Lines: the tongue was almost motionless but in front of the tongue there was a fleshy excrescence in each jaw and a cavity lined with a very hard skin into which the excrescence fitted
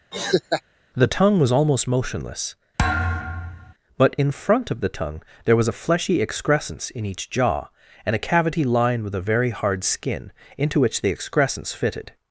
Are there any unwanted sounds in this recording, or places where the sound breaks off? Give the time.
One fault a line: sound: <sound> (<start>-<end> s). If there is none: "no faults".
sound: laugh (0.1-0.6 s)
sound: thud (2.8-3.7 s)